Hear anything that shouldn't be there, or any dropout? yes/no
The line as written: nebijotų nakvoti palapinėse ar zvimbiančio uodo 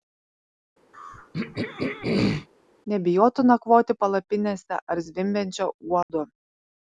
yes